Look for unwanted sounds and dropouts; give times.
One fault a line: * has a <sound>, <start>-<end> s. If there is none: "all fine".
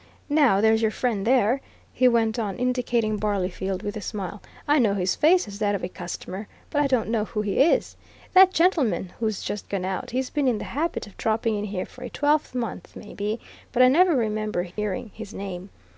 * has a dropout, 14.7-14.8 s